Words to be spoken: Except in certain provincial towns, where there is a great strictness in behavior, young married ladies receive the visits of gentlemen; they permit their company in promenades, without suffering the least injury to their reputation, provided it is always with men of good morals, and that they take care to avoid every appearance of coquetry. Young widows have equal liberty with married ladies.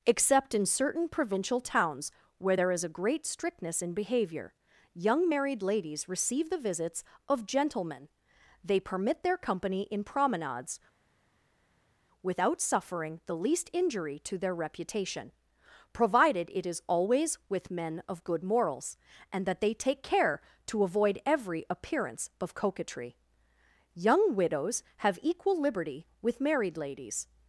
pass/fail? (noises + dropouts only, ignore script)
pass